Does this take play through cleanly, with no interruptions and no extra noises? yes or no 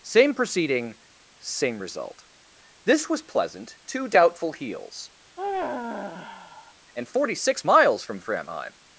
no